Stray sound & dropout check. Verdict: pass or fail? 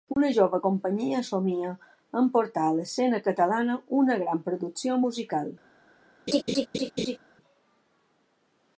fail